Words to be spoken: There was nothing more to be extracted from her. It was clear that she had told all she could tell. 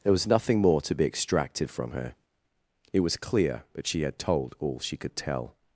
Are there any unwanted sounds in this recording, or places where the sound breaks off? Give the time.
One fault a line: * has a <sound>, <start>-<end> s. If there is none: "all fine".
all fine